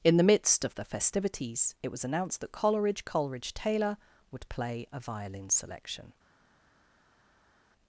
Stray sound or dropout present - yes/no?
no